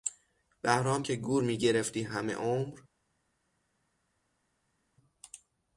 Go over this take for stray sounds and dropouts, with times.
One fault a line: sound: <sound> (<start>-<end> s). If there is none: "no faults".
no faults